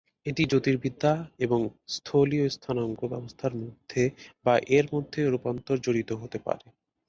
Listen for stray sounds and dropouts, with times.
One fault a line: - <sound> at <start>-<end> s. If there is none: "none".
none